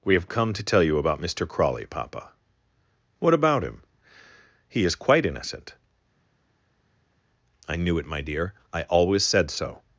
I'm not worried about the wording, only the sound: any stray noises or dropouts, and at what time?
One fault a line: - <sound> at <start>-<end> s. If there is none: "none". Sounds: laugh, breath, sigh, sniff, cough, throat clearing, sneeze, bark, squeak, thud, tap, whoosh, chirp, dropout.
none